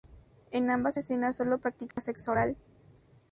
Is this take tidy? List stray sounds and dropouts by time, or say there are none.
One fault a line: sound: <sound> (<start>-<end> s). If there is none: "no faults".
sound: dropout (1.9-2.0 s)